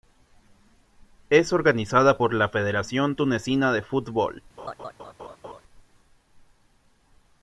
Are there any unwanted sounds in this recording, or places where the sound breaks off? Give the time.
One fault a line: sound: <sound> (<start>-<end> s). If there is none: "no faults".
sound: laugh (4.6-5.6 s)